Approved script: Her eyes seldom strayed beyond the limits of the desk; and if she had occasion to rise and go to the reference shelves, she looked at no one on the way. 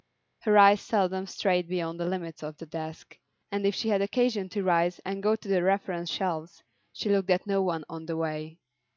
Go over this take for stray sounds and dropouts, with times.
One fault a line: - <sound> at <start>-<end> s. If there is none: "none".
none